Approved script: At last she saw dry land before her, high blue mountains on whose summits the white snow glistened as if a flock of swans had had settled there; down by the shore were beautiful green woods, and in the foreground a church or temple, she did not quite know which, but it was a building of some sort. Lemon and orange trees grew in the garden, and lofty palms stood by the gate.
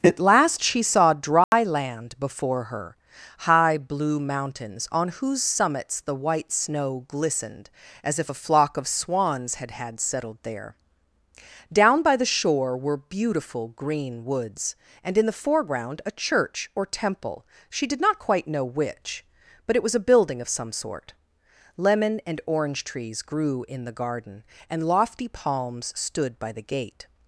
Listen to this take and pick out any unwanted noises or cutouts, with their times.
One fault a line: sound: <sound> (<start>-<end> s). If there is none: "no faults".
sound: dropout (1.4-1.5 s)